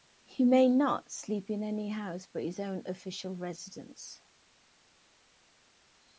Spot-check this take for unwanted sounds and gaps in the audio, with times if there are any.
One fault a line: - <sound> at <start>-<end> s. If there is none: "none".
none